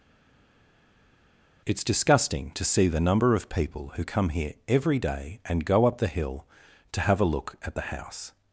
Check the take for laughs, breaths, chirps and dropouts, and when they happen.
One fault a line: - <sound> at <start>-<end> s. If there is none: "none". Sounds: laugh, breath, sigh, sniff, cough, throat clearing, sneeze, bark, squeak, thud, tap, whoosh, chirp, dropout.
none